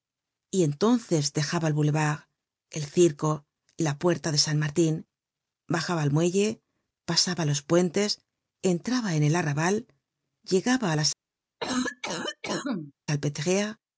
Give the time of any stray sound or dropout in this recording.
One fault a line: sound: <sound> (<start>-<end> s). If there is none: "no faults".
sound: cough (11.6-12.9 s)